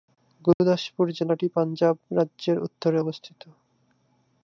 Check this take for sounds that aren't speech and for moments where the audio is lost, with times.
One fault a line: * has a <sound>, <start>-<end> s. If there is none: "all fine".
* has a dropout, 0.5-0.6 s